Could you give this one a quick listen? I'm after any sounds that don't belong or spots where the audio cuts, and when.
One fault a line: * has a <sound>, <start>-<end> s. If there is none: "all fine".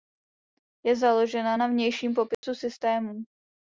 * has a dropout, 2.3-2.4 s